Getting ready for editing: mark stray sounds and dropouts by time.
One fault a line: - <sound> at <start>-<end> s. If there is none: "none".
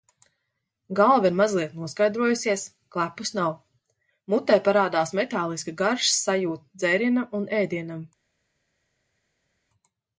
none